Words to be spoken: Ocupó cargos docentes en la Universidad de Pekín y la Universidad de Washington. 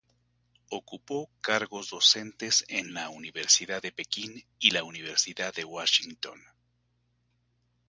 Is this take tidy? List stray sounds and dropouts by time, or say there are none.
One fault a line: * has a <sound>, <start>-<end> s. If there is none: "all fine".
all fine